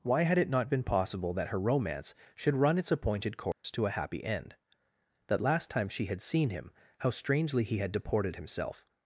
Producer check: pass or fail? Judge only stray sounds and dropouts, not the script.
fail